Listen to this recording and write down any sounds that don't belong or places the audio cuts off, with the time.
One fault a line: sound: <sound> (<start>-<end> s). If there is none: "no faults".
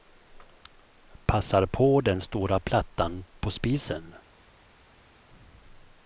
no faults